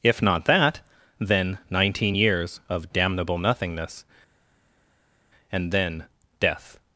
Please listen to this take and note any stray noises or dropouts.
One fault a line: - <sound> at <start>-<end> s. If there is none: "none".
none